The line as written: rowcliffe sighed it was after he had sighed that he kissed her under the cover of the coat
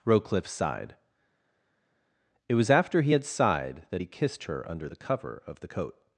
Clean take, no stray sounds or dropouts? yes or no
yes